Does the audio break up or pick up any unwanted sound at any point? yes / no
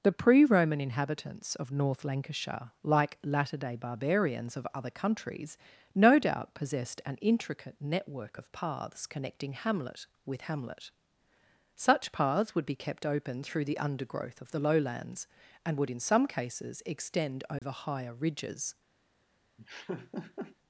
yes